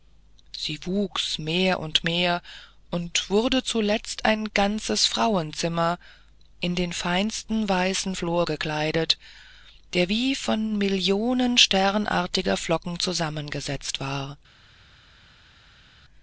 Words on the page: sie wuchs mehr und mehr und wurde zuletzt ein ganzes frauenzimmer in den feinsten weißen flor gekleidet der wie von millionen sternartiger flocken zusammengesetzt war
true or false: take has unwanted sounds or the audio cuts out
false